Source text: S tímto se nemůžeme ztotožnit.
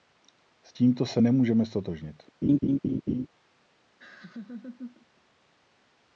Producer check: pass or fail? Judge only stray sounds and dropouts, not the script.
fail